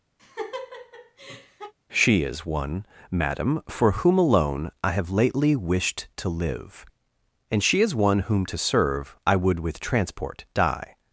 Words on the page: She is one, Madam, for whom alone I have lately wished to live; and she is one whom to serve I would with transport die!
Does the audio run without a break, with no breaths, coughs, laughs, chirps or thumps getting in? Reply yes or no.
no